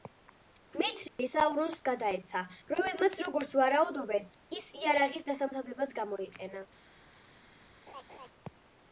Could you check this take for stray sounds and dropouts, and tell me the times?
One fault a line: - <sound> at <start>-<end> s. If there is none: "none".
- dropout at 1.1-1.2 s
- laugh at 7.9-8.3 s